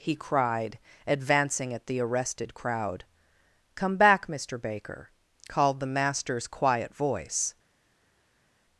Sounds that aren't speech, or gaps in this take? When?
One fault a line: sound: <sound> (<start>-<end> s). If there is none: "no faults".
no faults